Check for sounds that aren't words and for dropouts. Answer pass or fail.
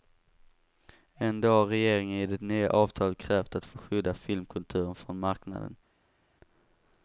pass